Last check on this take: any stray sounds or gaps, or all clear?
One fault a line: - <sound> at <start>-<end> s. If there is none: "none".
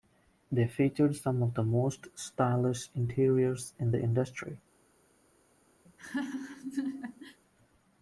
- laugh at 5.9-7.4 s